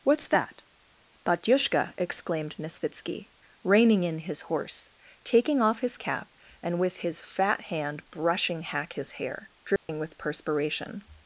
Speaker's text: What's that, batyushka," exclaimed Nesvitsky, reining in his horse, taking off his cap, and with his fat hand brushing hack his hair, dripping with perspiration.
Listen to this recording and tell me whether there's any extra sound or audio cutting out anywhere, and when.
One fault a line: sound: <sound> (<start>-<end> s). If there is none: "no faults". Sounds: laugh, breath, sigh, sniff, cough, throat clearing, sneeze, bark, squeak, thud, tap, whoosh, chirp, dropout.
sound: dropout (9.8-9.9 s)